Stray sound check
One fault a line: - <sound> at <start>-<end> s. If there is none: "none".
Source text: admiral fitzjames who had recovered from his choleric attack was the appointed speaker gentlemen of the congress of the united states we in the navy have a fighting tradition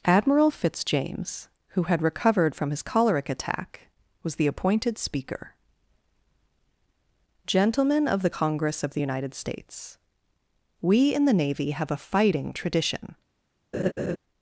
- laugh at 13.7-14.2 s